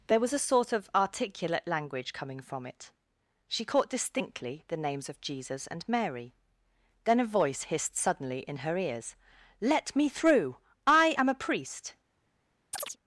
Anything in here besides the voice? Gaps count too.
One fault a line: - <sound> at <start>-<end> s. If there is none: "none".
- chirp at 12.7-13.0 s